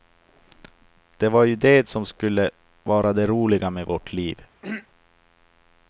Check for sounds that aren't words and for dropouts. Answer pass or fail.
fail